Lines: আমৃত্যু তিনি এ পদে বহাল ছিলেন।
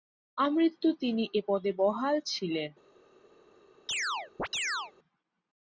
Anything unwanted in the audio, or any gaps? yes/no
yes